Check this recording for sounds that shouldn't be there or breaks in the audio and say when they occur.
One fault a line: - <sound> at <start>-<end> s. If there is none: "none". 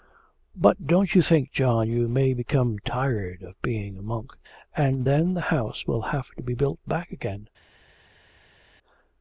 none